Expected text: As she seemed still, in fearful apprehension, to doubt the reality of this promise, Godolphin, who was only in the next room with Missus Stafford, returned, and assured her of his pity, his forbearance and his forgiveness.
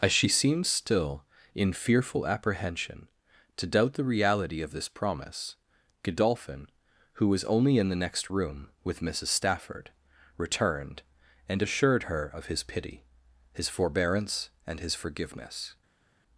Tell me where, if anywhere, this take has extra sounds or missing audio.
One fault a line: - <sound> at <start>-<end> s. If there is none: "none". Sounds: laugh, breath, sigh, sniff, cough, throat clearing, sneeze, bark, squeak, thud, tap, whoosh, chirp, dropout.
none